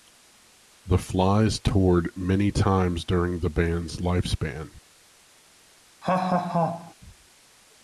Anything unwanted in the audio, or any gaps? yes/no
yes